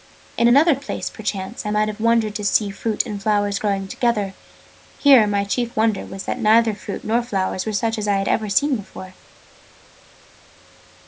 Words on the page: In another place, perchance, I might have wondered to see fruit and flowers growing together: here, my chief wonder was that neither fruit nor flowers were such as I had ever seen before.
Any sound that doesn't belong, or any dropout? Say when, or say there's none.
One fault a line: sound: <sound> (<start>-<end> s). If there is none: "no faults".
no faults